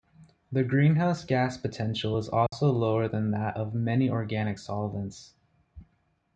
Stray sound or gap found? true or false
true